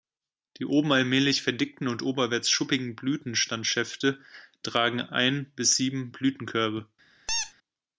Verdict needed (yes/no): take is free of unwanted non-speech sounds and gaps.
no